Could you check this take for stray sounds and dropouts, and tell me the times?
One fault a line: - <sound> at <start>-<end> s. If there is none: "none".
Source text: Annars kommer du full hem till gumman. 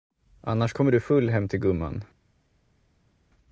none